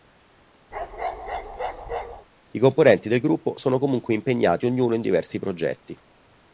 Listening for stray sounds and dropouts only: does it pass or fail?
fail